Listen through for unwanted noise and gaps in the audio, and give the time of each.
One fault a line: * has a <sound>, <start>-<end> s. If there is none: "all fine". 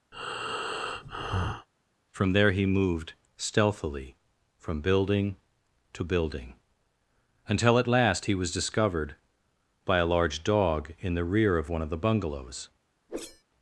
* has a breath, 0.1-1.7 s
* has a whoosh, 13.1-13.4 s